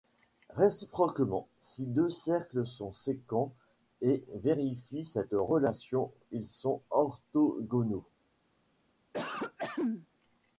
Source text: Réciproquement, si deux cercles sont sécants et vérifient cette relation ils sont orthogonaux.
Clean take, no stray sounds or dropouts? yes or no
no